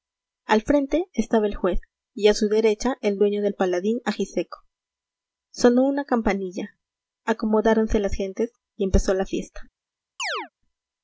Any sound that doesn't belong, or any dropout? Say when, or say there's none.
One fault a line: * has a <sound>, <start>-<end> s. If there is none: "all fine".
* has a chirp, 10.2-10.5 s